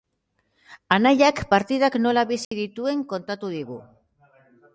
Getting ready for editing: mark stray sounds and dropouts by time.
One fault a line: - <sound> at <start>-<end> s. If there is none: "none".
- dropout at 2.4-2.5 s